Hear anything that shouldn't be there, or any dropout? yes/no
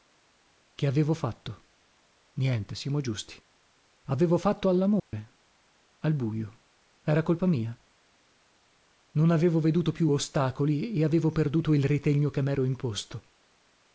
yes